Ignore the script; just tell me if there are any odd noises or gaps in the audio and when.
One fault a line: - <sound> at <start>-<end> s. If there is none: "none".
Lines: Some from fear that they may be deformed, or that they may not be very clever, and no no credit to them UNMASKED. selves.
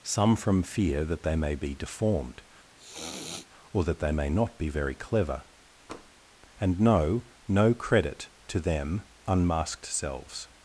- sniff at 2.8-3.5 s
- tap at 5.9-6.1 s